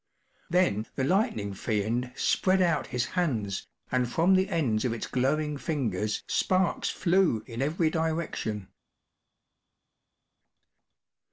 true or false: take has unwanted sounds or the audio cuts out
false